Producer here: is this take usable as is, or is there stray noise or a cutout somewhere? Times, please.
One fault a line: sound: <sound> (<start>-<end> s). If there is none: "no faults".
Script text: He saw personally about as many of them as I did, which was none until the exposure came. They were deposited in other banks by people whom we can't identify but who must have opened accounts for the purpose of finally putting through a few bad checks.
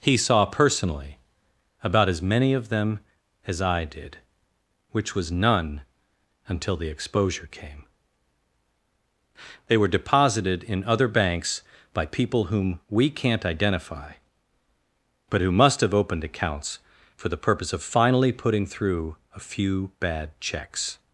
no faults